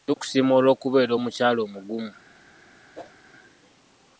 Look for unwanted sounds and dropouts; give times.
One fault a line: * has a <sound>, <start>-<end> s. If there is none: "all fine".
* has a whoosh, 2.9-3.1 s